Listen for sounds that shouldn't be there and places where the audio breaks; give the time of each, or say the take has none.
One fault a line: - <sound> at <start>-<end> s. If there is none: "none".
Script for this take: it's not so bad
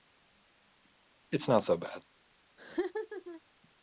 - laugh at 2.6-3.4 s